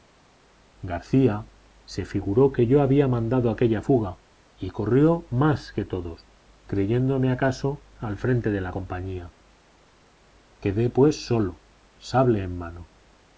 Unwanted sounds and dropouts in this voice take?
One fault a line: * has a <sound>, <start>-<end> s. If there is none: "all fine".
all fine